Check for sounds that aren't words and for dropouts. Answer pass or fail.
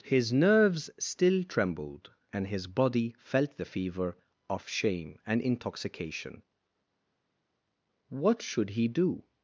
pass